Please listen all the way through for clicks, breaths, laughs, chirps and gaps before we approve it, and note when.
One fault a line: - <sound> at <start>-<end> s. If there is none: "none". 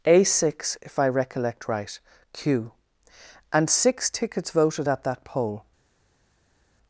none